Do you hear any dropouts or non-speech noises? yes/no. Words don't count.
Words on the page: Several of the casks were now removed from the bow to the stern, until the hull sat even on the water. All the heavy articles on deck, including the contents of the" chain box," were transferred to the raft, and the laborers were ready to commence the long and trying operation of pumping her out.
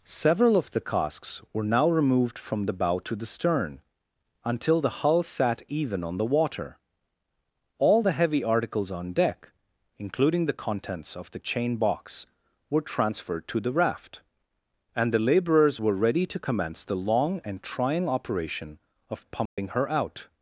yes